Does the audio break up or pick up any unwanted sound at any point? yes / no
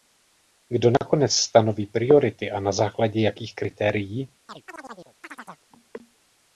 yes